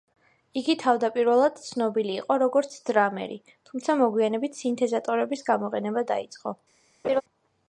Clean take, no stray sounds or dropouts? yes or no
no